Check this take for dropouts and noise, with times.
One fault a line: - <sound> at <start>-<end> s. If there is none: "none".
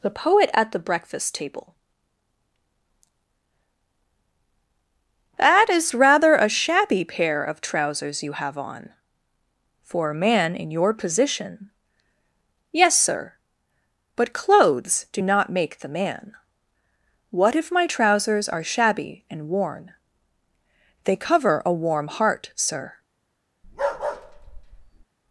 - bark at 23.6-25.1 s